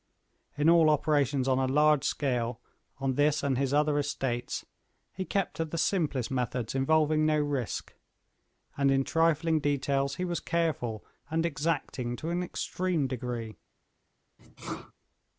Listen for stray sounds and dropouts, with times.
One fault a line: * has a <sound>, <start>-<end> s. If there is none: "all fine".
* has a sneeze, 14.4-14.9 s